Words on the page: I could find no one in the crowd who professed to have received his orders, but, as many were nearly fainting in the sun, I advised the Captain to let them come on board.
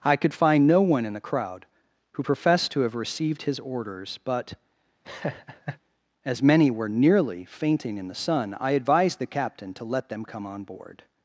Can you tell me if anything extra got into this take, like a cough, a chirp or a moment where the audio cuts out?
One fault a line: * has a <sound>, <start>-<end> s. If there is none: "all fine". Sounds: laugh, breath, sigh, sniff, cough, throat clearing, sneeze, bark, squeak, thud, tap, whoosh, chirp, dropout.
* has a laugh, 5.0-5.8 s